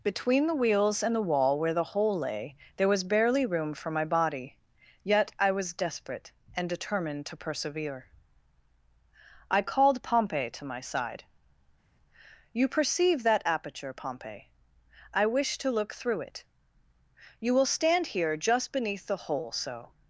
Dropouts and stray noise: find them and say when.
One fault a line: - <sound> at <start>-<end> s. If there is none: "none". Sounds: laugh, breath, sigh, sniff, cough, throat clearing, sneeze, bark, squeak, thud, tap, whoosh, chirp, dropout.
none